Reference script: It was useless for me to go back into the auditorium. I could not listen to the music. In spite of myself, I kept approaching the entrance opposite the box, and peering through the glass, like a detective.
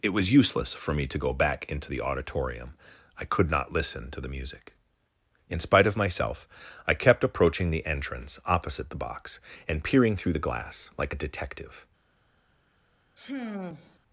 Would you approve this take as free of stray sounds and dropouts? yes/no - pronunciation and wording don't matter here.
no